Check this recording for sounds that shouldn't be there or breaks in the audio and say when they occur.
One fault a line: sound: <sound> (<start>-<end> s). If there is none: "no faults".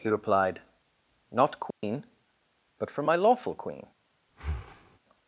sound: dropout (1.7-1.8 s)
sound: breath (4.3-5.0 s)